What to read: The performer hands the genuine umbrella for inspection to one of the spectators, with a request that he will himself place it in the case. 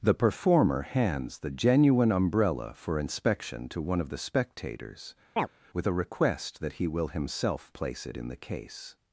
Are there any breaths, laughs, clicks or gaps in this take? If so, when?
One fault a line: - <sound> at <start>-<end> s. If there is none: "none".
- chirp at 5.4-5.5 s